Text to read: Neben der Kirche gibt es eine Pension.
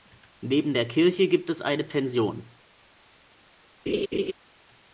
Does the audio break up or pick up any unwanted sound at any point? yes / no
yes